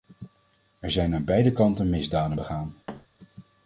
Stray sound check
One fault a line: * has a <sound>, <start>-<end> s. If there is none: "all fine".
* has a thud, 2.9-3.1 s